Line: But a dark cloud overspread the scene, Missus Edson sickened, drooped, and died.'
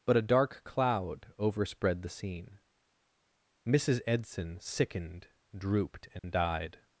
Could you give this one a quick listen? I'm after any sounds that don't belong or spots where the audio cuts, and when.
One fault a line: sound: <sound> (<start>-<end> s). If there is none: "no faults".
sound: dropout (6.2-6.2 s)